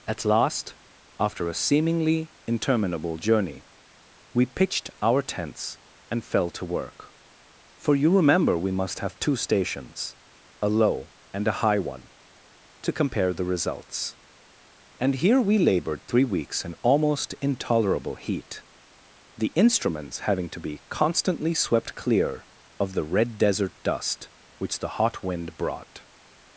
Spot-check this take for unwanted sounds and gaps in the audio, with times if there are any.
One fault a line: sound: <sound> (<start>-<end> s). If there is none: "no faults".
no faults